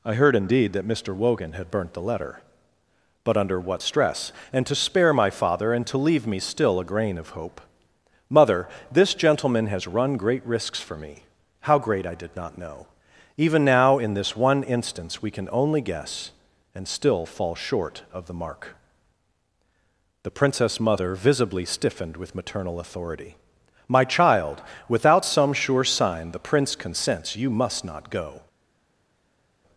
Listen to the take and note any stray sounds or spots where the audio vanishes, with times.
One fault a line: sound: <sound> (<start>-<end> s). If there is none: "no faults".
no faults